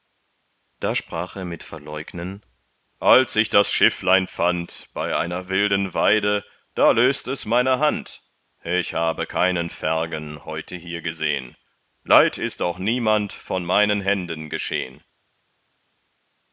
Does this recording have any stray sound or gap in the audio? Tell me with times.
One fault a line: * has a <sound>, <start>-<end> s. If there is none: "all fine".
all fine